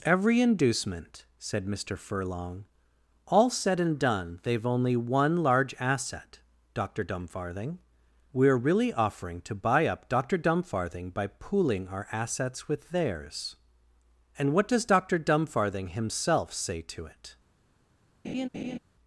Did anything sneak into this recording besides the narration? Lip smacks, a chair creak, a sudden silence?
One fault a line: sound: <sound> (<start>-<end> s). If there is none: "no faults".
sound: laugh (18.2-18.8 s)